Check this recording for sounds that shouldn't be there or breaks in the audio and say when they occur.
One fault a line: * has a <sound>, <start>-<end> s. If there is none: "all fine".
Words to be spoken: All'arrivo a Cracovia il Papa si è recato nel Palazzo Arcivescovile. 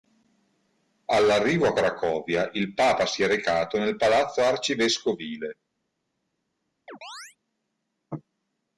* has a chirp, 6.9-7.4 s